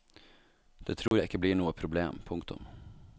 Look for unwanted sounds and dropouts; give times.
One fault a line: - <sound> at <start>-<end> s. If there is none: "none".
- dropout at 1.1-1.1 s